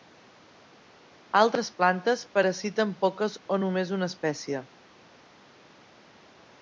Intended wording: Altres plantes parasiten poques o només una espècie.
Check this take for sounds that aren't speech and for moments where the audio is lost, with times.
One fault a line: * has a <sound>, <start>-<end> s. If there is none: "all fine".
all fine